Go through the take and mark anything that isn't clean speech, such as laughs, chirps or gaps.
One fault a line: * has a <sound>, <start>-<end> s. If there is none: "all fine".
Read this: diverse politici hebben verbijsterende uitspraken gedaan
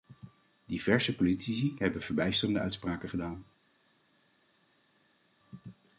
all fine